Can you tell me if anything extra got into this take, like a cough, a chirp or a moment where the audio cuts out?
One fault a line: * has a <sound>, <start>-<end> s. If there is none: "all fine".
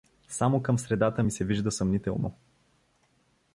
all fine